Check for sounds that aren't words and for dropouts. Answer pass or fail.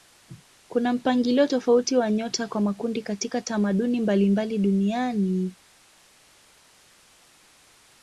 pass